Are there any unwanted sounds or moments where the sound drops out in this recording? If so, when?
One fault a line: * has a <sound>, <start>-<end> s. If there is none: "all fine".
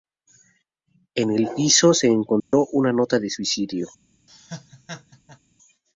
* has a dropout, 2.4-2.5 s
* has a laugh, 4.3-5.4 s